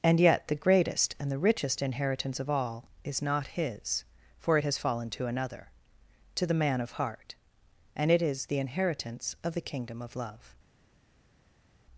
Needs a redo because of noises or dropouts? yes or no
no